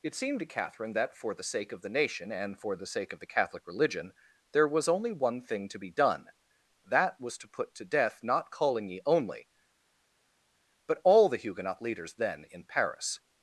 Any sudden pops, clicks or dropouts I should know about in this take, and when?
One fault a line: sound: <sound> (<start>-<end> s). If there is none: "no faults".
no faults